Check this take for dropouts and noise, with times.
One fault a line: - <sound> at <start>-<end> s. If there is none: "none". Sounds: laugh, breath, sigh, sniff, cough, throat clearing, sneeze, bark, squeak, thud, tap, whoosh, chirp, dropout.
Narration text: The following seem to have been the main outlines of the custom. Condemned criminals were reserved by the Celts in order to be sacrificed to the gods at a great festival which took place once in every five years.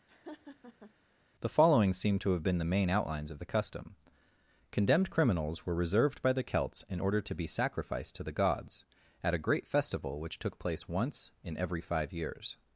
- laugh at 0.1-0.9 s